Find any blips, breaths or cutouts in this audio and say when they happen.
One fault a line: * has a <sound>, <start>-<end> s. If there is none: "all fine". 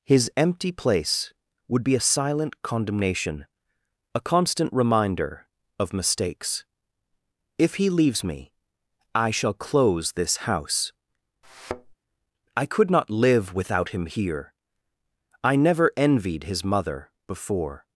* has a thud, 11.4-12.0 s